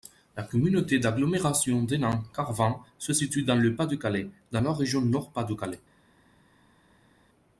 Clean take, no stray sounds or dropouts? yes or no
yes